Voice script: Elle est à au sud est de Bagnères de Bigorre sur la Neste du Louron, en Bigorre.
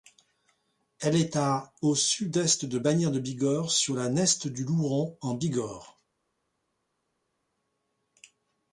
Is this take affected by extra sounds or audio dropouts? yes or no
no